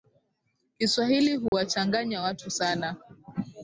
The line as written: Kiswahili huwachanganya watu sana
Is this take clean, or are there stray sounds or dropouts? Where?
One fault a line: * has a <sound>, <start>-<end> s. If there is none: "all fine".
* has a dropout, 1.5-1.5 s